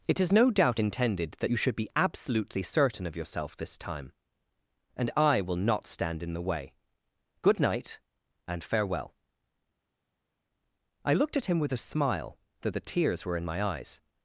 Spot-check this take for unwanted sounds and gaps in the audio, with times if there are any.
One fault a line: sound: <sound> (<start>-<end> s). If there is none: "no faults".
no faults